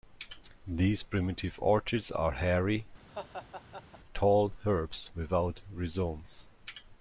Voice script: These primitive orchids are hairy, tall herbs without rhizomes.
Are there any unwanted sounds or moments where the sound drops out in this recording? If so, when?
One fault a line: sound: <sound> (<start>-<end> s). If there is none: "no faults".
sound: laugh (3.1-4.0 s)